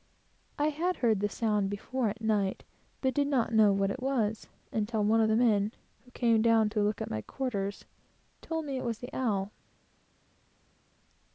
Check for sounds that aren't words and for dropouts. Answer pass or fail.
pass